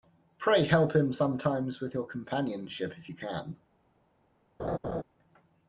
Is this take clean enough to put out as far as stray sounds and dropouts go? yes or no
no